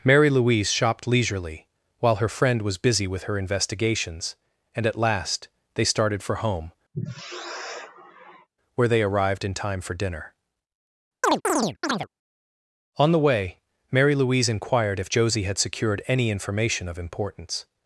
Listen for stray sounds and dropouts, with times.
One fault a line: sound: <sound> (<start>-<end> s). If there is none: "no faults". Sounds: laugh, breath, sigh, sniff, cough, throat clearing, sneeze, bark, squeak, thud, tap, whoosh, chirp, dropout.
sound: sigh (6.9-8.5 s)
sound: chirp (11.2-12.1 s)